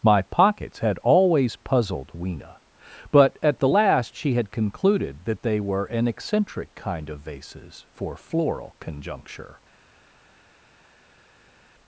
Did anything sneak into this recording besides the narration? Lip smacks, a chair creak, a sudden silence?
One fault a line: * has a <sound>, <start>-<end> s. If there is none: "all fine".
all fine